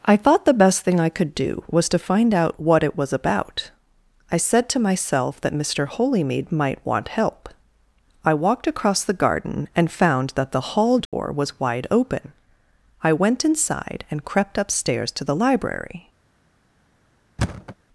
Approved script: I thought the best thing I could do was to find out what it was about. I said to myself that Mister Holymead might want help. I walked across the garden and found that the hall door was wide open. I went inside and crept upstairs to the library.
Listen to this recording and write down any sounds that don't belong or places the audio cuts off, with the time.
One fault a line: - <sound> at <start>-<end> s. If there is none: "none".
- dropout at 11.1-11.1 s
- thud at 17.4-17.8 s